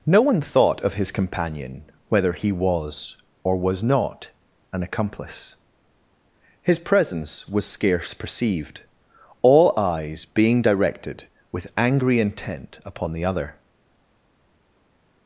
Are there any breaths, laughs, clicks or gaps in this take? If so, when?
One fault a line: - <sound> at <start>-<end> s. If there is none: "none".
none